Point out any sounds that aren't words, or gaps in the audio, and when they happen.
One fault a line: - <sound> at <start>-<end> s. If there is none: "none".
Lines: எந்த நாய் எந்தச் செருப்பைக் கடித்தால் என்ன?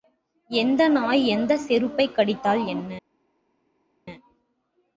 none